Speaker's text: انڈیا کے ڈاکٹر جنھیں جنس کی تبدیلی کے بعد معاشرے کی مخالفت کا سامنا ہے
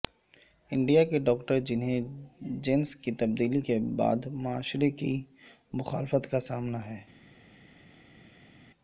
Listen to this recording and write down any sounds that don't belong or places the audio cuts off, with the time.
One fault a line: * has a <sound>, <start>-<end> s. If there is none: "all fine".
all fine